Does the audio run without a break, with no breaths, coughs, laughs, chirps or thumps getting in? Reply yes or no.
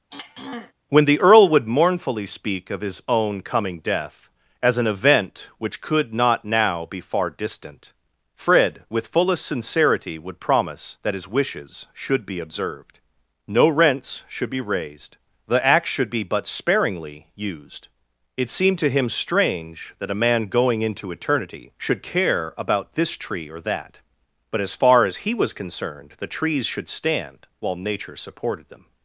no